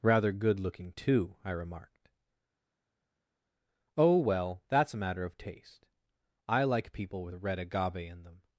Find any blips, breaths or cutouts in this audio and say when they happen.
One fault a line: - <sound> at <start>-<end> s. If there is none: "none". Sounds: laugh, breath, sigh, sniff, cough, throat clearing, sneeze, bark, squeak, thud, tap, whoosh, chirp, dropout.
none